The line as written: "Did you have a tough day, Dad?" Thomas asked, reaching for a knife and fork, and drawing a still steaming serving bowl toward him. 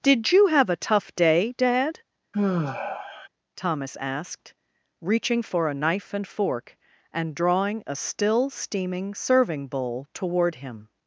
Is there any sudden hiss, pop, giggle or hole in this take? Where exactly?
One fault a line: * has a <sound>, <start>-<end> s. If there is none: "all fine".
* has a sigh, 2.3-3.3 s